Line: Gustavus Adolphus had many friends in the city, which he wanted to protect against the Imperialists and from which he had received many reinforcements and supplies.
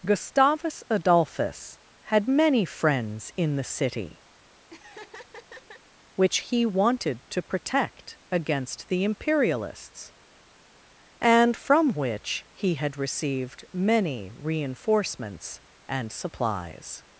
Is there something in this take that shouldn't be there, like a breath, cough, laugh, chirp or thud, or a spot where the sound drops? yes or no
yes